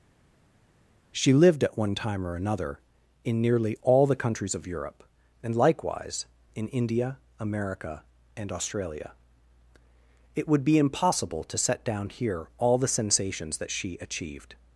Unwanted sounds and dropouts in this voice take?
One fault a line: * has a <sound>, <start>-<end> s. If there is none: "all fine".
all fine